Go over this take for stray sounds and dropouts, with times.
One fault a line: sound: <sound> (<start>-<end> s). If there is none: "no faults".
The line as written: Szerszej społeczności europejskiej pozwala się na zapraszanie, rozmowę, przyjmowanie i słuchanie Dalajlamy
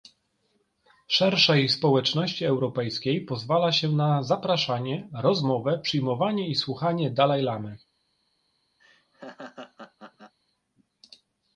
sound: laugh (8.8-10.3 s)